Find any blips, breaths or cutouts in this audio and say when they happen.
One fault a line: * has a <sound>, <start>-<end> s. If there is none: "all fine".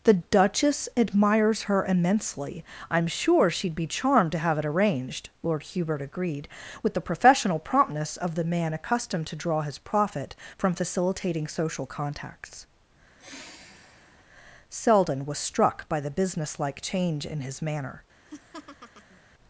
* has a sigh, 13.2-14.2 s
* has a laugh, 18.2-19.2 s